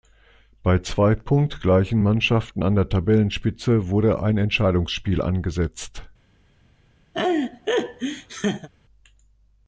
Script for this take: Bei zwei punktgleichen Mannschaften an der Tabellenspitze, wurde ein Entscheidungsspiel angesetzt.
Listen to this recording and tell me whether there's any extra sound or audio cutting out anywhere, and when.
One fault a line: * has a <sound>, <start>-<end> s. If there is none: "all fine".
* has a laugh, 7.1-8.7 s